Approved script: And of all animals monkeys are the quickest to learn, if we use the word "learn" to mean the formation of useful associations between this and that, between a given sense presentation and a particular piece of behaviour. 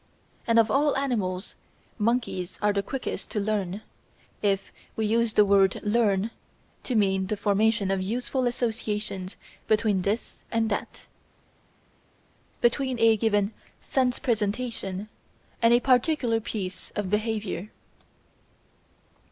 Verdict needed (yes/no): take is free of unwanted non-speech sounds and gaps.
yes